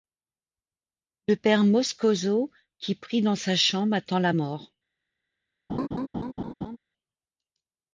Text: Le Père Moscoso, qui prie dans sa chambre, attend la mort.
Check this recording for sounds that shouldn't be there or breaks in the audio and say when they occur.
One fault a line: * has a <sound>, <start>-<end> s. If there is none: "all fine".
* has a laugh, 5.7-6.8 s